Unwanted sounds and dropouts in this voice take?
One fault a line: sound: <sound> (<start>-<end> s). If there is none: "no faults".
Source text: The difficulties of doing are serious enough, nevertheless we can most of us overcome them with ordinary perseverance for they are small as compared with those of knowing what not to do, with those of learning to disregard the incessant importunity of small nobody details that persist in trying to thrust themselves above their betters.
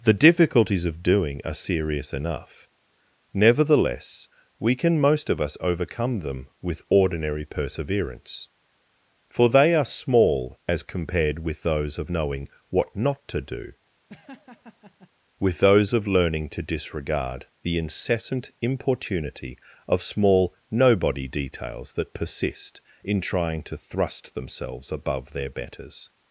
sound: laugh (14.1-15.1 s)